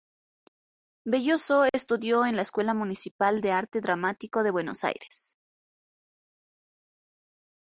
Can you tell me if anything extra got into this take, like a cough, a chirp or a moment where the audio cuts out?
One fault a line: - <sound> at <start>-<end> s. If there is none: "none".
none